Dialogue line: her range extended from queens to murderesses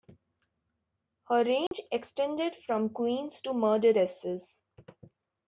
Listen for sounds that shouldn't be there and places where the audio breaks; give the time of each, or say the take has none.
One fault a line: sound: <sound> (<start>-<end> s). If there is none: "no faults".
sound: dropout (1.7-1.7 s)